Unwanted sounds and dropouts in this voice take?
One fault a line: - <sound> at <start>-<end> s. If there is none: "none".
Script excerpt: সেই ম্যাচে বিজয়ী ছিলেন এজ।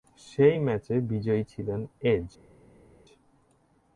none